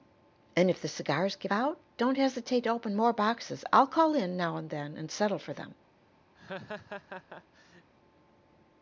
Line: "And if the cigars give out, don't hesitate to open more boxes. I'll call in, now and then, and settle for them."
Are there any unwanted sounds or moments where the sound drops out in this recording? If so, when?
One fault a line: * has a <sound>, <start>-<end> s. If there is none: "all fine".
* has a laugh, 6.3-7.9 s